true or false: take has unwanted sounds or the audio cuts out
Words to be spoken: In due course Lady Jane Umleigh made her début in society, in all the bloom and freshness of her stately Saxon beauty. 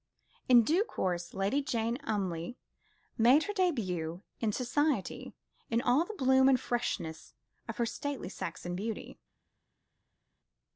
false